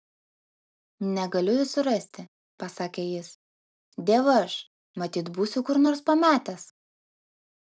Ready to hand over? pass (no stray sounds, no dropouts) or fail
pass